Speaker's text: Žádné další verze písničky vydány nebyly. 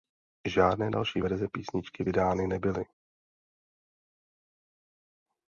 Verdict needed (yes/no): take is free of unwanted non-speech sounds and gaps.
yes